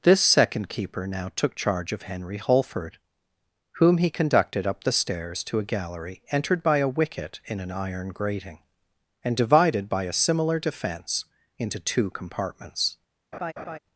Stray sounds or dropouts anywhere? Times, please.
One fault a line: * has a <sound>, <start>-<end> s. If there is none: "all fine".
* has a laugh, 13.3-13.8 s